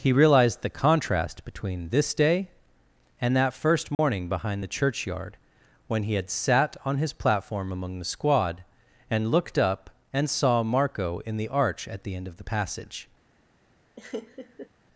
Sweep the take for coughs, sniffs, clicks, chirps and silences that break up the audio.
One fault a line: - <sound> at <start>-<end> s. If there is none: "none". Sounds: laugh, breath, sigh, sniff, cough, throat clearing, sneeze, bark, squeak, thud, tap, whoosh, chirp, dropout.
- dropout at 3.9-4.0 s
- laugh at 14.0-14.7 s